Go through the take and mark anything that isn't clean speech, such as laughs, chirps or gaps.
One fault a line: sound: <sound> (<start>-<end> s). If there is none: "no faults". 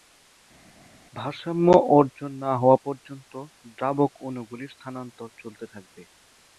no faults